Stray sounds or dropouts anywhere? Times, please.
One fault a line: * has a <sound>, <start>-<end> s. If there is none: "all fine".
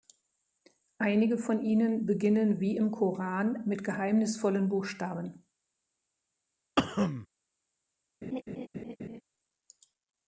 * has a cough, 6.8-7.3 s
* has a laugh, 8.2-9.2 s